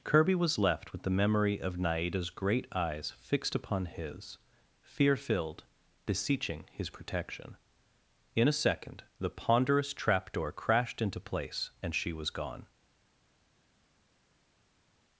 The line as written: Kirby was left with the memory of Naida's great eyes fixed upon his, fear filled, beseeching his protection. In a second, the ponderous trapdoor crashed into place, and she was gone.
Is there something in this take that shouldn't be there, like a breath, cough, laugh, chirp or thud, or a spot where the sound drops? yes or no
no